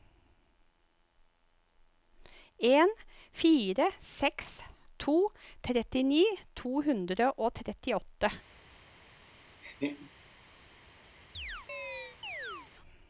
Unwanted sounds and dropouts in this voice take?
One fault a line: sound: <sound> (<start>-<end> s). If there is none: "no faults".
sound: laugh (9.6-10.1 s)
sound: chirp (11.3-12.7 s)